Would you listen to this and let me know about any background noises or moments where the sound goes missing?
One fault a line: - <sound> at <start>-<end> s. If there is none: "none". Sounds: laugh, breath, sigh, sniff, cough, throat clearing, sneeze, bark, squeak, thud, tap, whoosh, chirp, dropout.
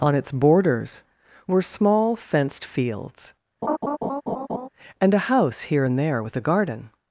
- laugh at 3.6-4.7 s